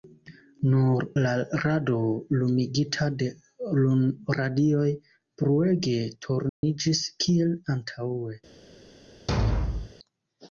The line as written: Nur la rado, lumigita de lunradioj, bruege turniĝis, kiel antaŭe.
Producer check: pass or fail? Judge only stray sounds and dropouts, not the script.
fail